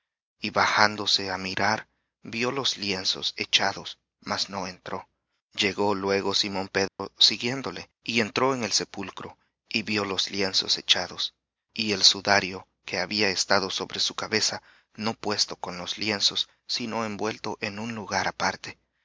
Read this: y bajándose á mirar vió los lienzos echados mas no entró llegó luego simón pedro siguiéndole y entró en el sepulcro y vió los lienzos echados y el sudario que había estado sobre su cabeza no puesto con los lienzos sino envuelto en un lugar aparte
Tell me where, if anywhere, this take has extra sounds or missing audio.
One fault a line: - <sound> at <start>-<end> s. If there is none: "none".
- dropout at 6.9-7.0 s